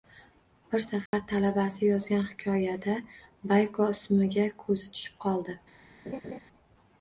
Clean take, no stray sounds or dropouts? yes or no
no